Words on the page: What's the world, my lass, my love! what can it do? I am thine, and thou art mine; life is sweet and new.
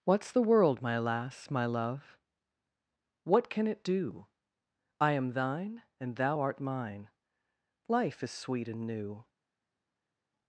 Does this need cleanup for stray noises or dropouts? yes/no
no